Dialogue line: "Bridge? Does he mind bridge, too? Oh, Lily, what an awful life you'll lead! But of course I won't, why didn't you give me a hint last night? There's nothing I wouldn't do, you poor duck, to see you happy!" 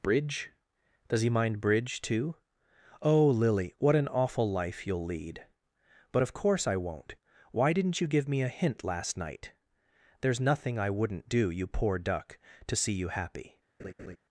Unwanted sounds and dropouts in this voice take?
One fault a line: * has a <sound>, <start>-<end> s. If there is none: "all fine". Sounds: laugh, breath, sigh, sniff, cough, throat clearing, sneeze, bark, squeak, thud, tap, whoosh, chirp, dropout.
* has a laugh, 13.8-14.2 s